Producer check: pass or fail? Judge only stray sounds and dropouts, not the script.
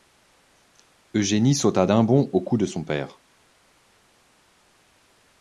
pass